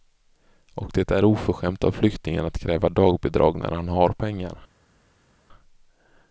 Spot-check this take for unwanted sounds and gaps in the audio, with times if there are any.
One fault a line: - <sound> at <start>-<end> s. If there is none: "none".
none